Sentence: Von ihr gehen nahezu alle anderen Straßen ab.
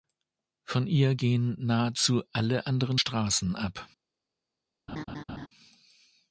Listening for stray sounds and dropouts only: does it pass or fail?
fail